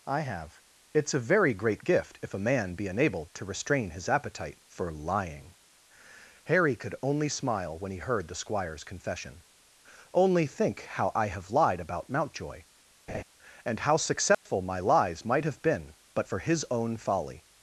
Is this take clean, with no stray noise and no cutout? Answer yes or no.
no